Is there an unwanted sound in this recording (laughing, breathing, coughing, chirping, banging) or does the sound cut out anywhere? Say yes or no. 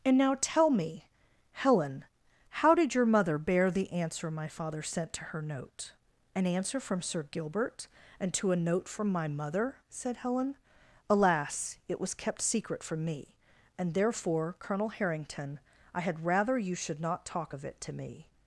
no